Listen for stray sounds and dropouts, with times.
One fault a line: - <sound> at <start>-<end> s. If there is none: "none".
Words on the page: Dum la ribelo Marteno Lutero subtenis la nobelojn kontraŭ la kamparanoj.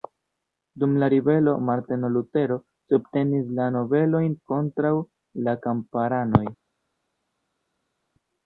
none